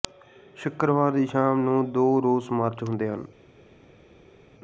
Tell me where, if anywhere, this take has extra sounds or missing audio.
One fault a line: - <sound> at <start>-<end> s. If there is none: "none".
none